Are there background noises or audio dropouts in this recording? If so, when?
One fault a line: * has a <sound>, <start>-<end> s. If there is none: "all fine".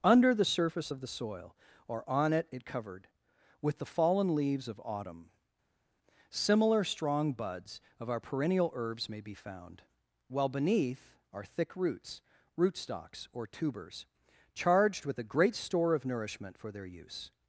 all fine